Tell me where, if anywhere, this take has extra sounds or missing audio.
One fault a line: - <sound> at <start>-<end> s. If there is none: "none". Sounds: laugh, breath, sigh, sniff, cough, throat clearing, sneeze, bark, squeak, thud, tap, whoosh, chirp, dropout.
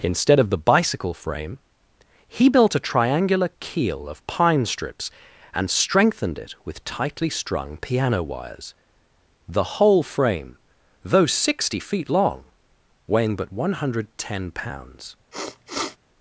- sniff at 15.3-16.0 s